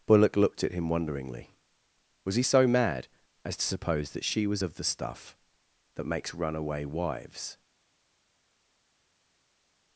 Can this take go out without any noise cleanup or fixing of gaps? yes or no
yes